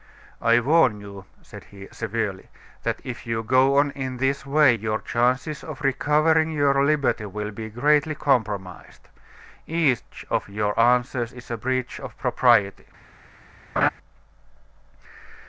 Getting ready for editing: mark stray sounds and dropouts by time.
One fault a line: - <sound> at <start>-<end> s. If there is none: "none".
- laugh at 13.8-13.9 s